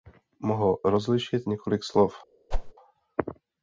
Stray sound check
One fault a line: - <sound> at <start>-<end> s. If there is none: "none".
- whoosh at 2.5-2.7 s